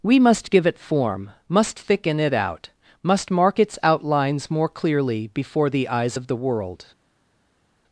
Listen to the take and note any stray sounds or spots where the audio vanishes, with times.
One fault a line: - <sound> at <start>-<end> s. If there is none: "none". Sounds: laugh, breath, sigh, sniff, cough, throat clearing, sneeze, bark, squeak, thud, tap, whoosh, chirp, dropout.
none